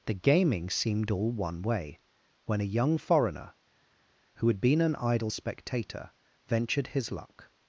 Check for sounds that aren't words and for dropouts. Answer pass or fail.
pass